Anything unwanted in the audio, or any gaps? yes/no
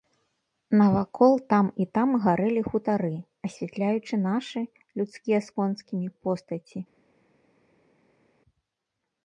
no